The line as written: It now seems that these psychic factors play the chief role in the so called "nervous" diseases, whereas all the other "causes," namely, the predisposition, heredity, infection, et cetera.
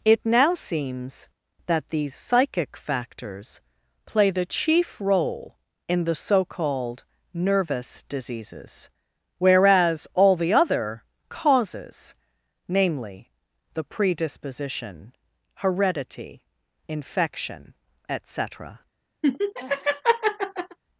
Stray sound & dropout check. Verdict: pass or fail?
fail